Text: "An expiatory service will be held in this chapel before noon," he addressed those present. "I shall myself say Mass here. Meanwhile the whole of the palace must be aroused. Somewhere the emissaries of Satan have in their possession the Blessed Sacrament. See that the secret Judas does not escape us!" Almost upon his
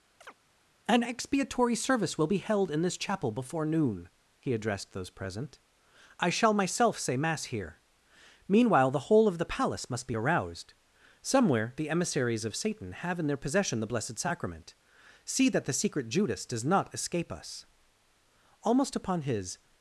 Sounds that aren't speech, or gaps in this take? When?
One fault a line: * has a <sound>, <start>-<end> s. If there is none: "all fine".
* has a chirp, 0.2-0.3 s